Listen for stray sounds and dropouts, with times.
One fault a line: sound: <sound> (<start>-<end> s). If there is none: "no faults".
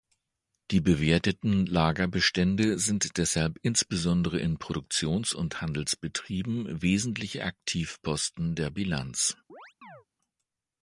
sound: chirp (9.5-10.1 s)